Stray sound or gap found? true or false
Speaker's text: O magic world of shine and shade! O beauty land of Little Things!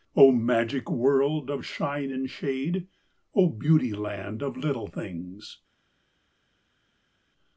false